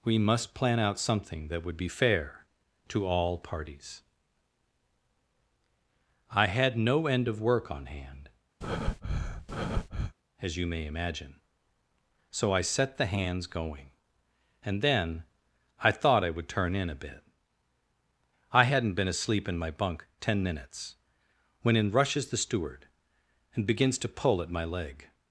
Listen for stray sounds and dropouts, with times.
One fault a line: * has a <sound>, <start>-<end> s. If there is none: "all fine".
* has a breath, 8.6-10.1 s